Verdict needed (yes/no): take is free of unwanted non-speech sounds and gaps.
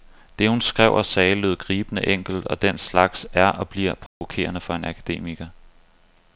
no